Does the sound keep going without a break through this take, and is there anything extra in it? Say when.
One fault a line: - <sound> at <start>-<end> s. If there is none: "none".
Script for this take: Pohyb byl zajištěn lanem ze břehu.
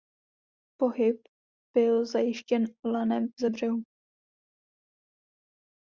none